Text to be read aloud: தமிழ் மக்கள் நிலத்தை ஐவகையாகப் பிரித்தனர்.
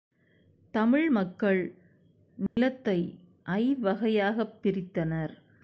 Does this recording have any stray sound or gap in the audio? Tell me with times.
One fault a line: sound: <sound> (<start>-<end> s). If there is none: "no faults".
sound: dropout (2.5-2.6 s)